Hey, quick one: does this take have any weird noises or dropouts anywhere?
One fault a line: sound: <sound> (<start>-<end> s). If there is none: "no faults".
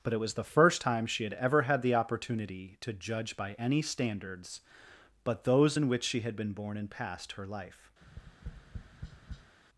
sound: tap (8.0-9.6 s)